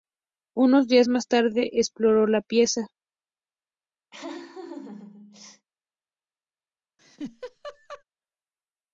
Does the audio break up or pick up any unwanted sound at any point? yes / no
yes